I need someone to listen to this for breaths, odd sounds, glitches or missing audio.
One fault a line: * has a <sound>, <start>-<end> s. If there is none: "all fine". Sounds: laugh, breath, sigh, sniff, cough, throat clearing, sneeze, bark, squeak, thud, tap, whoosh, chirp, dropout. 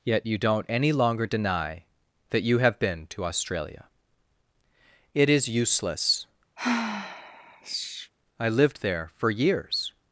* has a sigh, 6.6-8.1 s